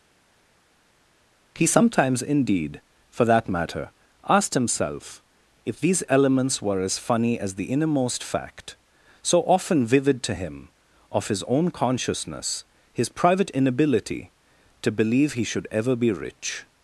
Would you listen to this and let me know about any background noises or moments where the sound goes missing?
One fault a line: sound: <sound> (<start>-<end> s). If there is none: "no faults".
no faults